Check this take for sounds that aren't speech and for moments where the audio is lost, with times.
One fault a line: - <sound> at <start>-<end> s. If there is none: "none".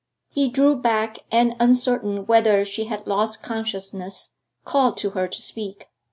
none